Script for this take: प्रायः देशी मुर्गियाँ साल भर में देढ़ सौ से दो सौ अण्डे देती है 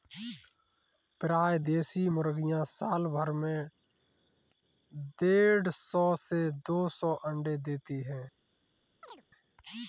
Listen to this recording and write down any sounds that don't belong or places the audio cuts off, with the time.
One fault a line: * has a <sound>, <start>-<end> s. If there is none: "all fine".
* has a chirp, 9.0-9.2 s